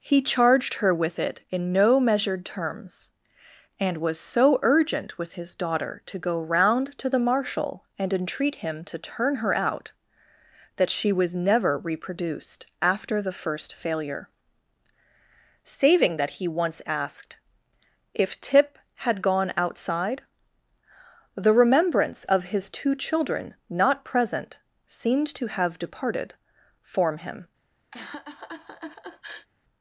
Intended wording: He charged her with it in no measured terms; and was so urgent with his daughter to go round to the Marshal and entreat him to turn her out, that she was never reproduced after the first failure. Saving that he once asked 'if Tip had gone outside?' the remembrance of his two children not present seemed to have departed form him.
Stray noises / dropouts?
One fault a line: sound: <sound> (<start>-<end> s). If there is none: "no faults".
sound: laugh (27.9-29.5 s)